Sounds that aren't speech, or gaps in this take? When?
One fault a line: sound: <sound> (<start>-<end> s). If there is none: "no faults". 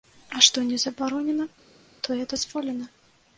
no faults